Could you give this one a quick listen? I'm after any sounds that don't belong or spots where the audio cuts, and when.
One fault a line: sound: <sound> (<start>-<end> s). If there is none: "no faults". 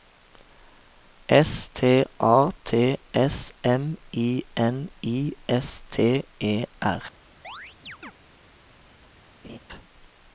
sound: chirp (7.4-8.1 s)
sound: laugh (9.4-9.6 s)